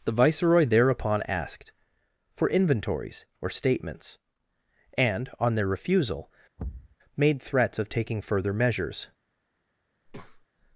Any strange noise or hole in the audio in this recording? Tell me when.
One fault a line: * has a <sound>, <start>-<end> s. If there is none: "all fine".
* has a thud, 6.6-7.0 s
* has a breath, 10.1-10.5 s